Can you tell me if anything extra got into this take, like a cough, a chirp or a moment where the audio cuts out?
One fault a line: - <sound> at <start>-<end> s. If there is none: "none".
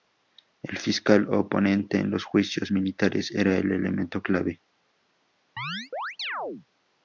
- chirp at 5.6-6.7 s